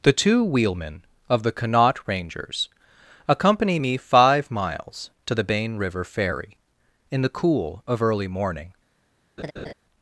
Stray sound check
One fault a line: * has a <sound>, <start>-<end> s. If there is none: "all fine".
* has a laugh, 9.4-9.7 s